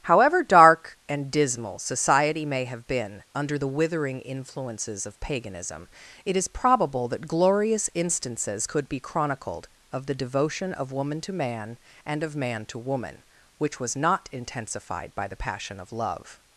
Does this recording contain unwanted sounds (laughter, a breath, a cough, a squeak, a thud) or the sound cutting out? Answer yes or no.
no